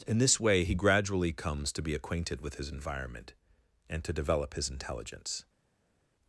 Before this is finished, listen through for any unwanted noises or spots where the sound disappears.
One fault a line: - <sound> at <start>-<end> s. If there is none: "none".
none